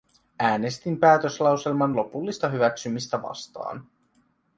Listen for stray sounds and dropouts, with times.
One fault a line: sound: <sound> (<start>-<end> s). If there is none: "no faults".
no faults